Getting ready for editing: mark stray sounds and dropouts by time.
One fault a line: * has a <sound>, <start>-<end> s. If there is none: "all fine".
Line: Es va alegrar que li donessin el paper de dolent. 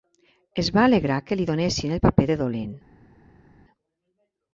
all fine